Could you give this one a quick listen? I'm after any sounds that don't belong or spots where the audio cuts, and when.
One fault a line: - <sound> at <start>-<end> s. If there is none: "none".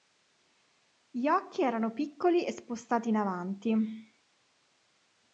none